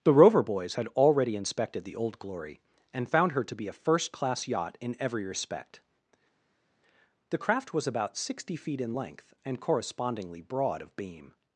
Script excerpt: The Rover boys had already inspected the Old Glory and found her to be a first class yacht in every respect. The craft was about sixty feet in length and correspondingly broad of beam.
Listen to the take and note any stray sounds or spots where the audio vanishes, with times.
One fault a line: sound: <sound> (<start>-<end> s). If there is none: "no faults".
no faults